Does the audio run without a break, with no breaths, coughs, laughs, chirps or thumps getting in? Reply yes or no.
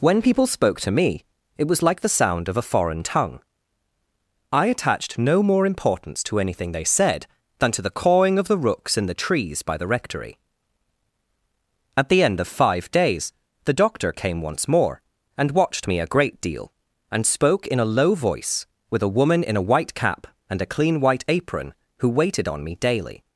yes